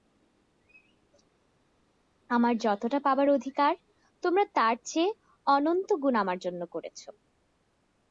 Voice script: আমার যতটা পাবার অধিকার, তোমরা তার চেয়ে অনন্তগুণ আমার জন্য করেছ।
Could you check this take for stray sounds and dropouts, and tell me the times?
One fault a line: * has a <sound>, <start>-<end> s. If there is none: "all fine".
all fine